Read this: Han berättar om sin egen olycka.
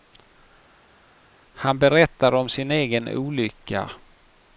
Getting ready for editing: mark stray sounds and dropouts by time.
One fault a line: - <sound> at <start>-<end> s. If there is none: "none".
none